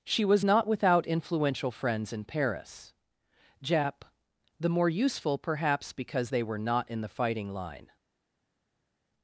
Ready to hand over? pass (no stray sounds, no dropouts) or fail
pass